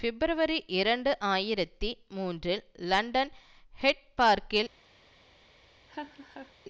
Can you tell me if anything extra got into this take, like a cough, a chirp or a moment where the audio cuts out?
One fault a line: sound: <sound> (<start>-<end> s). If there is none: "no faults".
sound: laugh (5.9-6.5 s)